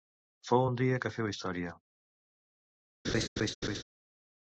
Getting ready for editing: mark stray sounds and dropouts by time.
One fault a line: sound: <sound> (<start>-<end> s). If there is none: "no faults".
sound: laugh (3.0-3.8 s)